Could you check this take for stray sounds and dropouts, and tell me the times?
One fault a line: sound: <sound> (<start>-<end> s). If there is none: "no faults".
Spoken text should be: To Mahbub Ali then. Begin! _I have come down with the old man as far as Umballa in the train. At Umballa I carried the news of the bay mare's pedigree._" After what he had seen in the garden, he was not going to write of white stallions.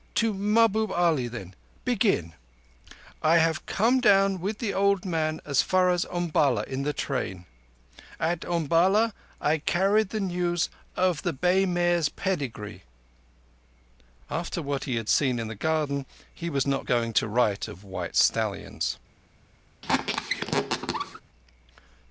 sound: squeak (19.8-21.2 s)